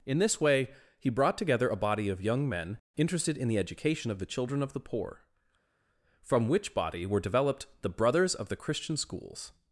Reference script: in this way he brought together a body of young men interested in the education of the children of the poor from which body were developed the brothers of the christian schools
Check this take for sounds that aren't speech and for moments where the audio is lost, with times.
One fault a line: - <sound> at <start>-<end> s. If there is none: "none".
none